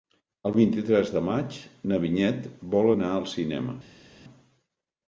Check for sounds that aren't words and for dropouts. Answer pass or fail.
pass